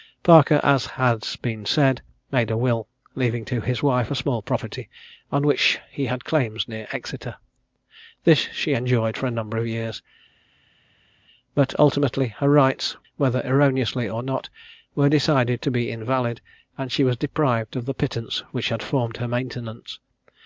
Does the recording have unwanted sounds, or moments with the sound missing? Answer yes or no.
no